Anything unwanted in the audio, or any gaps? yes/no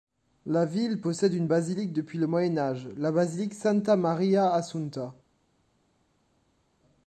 no